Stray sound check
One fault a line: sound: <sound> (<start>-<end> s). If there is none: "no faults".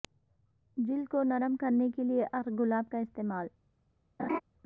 sound: laugh (4.2-4.4 s)